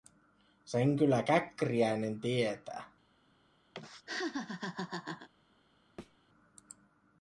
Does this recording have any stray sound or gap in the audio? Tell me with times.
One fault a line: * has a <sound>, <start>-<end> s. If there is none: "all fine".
* has a laugh, 3.7-5.3 s
* has a thud, 6.0-6.2 s